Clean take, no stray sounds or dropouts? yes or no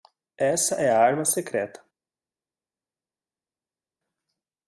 yes